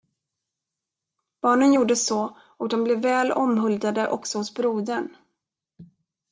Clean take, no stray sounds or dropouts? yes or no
yes